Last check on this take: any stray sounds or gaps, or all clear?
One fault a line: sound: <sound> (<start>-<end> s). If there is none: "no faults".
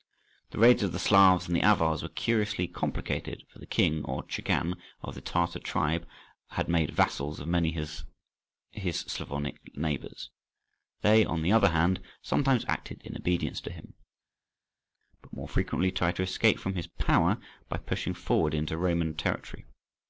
no faults